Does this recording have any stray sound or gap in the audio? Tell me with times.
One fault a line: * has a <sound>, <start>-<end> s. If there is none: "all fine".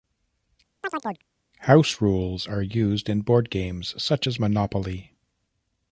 * has a chirp, 0.8-1.3 s